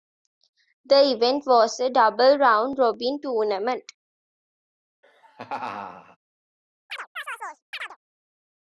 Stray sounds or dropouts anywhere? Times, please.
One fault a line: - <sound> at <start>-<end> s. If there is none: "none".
- laugh at 5.0-6.2 s
- chirp at 6.9-8.0 s